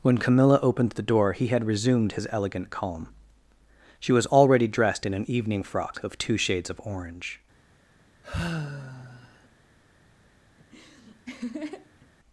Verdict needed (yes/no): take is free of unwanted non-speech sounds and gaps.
no